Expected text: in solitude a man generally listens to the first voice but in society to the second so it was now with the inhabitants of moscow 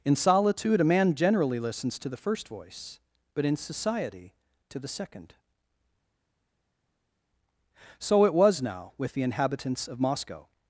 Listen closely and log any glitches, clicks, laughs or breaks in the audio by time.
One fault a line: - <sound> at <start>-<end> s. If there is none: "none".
none